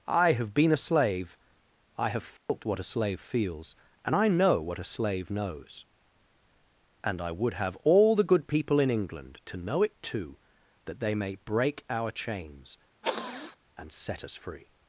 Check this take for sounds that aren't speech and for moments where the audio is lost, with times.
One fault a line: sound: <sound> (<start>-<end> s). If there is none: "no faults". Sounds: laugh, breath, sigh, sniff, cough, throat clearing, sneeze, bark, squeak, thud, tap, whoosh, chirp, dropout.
sound: dropout (2.4-2.5 s)
sound: sniff (13.0-13.6 s)